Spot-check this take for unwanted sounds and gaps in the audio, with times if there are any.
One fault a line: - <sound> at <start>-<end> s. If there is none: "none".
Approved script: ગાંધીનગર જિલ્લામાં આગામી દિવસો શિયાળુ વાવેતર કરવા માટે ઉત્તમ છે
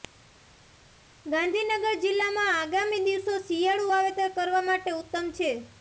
none